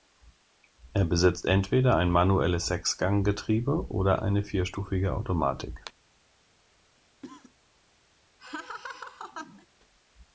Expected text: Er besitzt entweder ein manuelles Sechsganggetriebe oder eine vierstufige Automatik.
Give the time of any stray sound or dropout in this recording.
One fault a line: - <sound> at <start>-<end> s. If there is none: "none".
- cough at 7.2-7.5 s
- laugh at 8.4-9.7 s